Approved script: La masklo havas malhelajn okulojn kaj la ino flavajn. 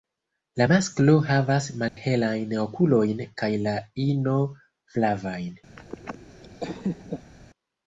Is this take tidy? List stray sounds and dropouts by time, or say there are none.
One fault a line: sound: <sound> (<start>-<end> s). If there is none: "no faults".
sound: dropout (1.9-2.0 s)
sound: laugh (5.8-7.3 s)